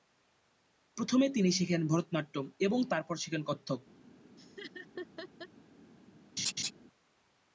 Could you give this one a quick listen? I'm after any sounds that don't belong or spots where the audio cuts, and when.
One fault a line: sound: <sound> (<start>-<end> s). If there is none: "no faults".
sound: laugh (4.4-5.5 s)
sound: laugh (6.4-6.7 s)